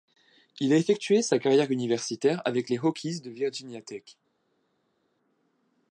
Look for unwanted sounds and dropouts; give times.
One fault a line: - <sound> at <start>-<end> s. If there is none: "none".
none